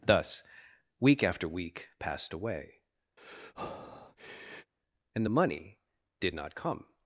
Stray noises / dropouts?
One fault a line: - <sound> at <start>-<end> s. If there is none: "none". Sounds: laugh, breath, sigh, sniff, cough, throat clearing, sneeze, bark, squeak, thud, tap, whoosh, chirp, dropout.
- breath at 3.2-4.7 s